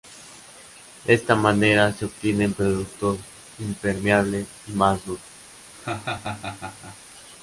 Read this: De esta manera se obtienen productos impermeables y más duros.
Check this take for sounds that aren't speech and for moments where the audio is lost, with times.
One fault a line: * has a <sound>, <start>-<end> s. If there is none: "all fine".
* has a laugh, 5.7-7.0 s